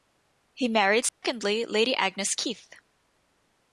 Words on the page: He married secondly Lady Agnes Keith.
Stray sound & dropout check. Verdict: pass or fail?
fail